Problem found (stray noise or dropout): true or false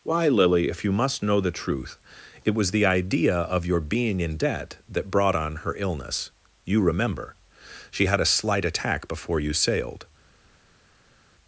false